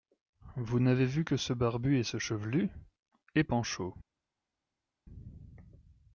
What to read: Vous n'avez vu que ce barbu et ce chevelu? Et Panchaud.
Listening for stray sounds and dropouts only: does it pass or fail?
pass